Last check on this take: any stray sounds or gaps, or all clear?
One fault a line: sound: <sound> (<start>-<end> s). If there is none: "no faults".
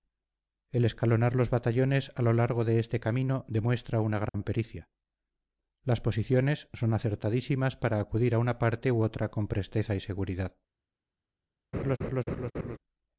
sound: dropout (4.3-4.3 s)
sound: laugh (11.7-12.8 s)